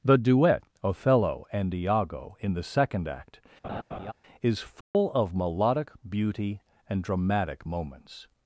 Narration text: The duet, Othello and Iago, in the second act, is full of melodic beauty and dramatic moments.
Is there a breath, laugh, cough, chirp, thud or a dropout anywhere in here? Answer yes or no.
yes